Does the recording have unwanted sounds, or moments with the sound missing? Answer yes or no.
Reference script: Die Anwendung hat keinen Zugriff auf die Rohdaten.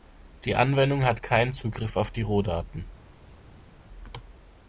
no